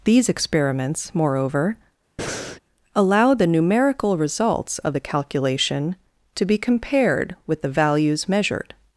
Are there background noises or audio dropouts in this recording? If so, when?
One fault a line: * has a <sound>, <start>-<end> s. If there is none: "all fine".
* has a breath, 2.2-2.6 s